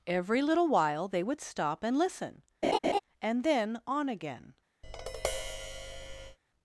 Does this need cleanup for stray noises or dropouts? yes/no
yes